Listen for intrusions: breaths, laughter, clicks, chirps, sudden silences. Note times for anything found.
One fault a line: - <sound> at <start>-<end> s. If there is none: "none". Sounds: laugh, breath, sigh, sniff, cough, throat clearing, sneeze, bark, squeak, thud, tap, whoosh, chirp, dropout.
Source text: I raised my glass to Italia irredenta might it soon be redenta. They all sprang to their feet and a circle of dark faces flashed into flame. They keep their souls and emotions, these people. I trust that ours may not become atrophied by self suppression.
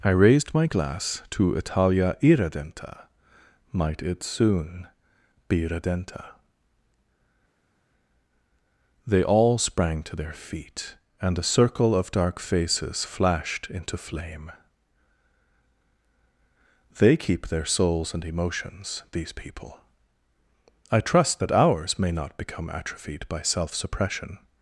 none